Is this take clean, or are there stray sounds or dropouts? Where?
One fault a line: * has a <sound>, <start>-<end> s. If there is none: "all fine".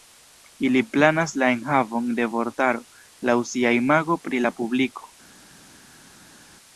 all fine